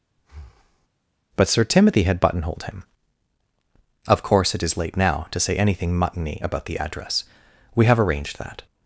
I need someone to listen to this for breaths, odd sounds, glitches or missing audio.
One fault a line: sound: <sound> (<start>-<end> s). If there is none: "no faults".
sound: breath (0.2-0.9 s)